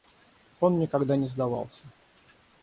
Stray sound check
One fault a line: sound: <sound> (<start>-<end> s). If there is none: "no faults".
no faults